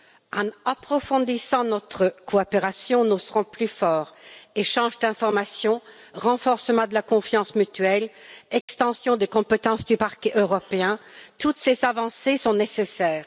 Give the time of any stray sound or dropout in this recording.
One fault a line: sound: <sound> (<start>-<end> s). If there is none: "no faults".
sound: dropout (8.6-8.7 s)